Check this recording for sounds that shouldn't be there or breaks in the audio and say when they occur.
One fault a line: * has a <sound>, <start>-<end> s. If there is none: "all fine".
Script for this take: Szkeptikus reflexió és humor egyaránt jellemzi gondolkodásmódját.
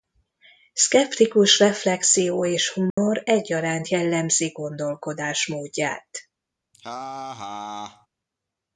* has a dropout, 2.9-3.0 s
* has a laugh, 6.7-8.1 s